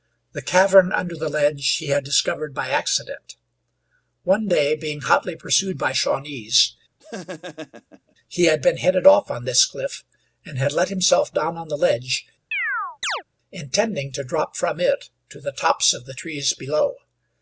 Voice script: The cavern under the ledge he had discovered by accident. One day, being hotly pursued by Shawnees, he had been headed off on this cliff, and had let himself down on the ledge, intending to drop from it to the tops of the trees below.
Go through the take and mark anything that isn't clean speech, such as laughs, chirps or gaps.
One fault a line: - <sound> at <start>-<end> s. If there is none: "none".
- laugh at 7.0-8.1 s
- chirp at 12.5-13.2 s